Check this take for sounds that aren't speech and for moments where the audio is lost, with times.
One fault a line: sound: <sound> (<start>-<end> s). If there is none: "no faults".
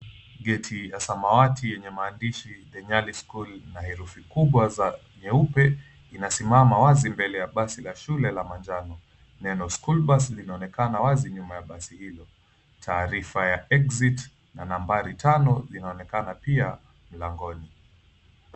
no faults